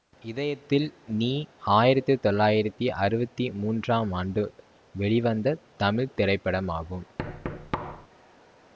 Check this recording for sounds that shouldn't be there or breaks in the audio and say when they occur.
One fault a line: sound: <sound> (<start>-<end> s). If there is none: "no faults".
sound: thud (7.2-8.1 s)